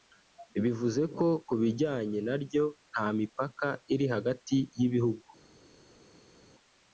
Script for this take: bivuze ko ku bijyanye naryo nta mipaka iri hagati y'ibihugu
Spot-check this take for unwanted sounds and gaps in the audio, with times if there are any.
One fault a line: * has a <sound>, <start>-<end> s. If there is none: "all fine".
all fine